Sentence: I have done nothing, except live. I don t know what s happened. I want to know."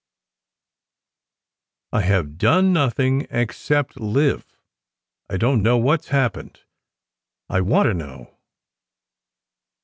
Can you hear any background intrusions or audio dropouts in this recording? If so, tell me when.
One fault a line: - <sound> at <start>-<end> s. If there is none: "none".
none